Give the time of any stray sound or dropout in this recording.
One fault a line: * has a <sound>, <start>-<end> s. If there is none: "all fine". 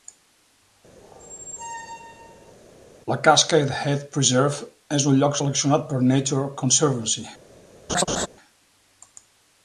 * has a squeak, 1.0-2.5 s
* has a laugh, 7.9-8.3 s